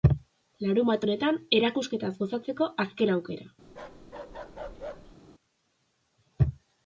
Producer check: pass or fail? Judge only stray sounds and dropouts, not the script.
fail